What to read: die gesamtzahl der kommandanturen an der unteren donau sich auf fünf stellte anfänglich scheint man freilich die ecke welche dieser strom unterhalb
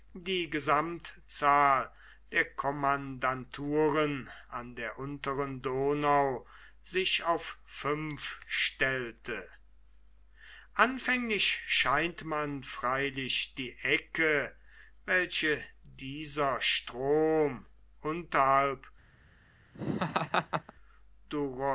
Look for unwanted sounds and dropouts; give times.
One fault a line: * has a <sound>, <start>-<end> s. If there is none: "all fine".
* has a laugh, 19.7-20.7 s